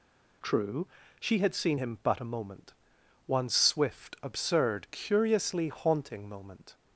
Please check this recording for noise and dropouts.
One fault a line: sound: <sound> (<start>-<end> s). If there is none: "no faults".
no faults